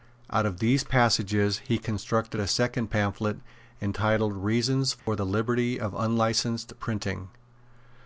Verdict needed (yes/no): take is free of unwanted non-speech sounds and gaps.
no